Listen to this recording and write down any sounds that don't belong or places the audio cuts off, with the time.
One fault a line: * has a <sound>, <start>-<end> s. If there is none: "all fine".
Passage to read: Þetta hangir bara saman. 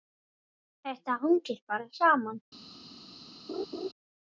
* has a laugh, 3.5-3.9 s